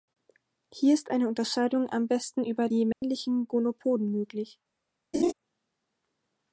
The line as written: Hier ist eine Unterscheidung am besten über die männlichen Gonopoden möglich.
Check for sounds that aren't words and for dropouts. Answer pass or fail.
fail